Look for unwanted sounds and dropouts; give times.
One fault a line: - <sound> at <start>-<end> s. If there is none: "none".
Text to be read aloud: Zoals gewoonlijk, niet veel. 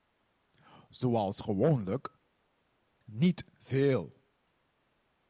none